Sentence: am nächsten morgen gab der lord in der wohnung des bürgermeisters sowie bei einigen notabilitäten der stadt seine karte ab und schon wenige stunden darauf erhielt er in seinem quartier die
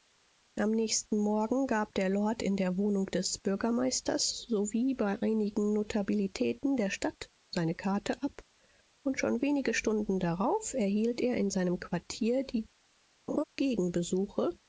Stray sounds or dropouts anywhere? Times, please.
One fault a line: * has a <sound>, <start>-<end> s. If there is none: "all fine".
* has a laugh, 13.3-13.4 s